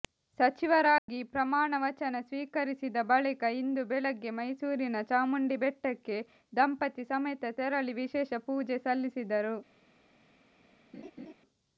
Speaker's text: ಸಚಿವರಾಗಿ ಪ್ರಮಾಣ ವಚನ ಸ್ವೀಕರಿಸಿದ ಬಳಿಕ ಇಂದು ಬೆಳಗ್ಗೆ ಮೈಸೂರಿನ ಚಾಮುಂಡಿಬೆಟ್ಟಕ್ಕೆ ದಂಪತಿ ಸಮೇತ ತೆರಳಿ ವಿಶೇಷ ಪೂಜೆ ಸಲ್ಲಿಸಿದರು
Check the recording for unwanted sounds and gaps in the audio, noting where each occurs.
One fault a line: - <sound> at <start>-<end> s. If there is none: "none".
- dropout at 1.0-1.1 s
- laugh at 10.9-11.3 s